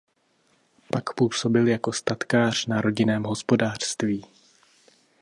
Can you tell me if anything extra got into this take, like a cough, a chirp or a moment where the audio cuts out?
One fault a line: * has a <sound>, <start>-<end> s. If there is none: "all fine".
all fine